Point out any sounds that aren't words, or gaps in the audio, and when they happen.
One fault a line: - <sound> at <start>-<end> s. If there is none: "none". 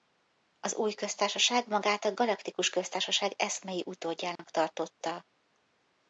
- dropout at 4.4-4.4 s